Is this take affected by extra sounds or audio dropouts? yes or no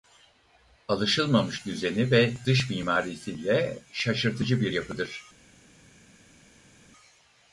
no